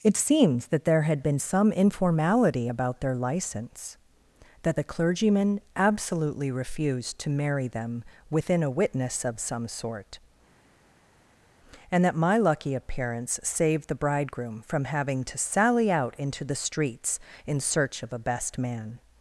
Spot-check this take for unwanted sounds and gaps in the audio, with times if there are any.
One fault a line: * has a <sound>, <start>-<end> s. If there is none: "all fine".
all fine